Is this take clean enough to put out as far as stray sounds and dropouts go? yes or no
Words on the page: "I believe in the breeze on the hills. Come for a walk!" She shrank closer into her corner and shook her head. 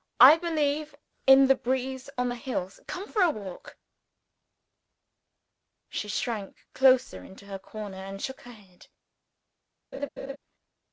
no